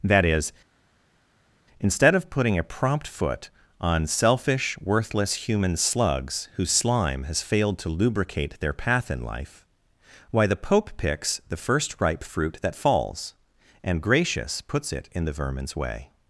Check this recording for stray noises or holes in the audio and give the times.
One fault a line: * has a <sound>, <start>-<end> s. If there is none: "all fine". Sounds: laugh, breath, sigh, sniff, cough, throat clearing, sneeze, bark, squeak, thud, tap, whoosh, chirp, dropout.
all fine